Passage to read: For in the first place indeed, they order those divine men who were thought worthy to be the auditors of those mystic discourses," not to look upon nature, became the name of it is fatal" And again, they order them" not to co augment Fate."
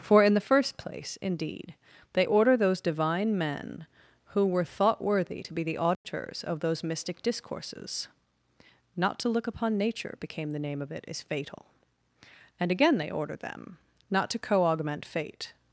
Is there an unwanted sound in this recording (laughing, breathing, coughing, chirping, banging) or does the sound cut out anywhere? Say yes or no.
yes